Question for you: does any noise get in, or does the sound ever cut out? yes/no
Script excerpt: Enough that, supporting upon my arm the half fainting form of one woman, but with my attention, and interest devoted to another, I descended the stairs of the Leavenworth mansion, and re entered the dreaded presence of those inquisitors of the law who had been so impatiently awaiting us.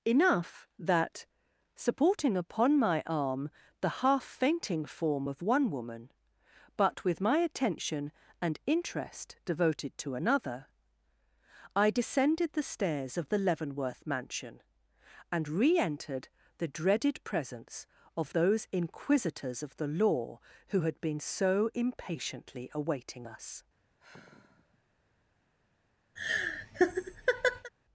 yes